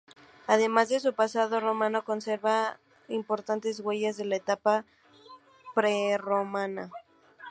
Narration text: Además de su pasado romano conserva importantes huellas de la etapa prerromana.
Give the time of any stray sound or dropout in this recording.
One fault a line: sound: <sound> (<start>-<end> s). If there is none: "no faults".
no faults